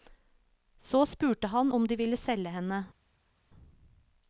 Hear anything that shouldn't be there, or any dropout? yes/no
no